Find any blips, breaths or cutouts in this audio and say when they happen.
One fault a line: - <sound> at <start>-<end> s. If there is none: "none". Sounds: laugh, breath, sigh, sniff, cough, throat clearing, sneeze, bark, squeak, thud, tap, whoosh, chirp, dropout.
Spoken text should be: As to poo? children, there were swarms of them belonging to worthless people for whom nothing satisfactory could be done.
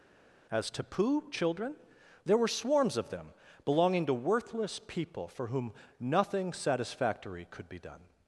none